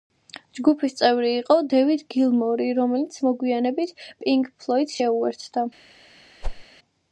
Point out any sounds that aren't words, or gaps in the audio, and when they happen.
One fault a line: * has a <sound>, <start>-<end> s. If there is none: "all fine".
* has a whoosh, 6.4-6.6 s